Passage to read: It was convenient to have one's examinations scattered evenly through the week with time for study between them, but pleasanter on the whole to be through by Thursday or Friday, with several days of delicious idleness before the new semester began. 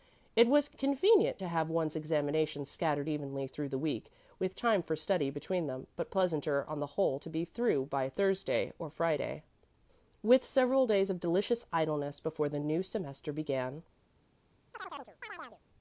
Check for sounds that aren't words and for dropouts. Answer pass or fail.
fail